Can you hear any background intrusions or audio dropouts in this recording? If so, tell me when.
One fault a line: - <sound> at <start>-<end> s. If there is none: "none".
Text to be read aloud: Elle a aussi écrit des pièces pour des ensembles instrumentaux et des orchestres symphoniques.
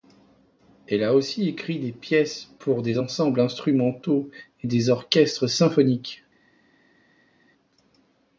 none